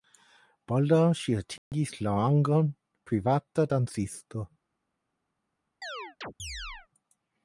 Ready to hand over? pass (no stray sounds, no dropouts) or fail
fail